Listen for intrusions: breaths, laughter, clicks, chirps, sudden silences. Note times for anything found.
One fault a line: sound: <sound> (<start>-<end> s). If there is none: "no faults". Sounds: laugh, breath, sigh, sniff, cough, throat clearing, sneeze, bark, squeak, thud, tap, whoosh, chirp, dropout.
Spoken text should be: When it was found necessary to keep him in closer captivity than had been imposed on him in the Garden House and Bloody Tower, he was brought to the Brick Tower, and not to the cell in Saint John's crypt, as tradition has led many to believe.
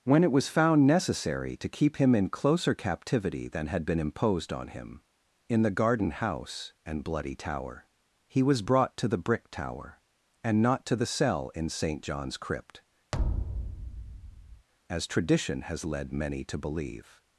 sound: thud (13.1-14.7 s)